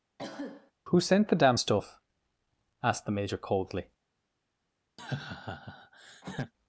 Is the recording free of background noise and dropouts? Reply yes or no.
no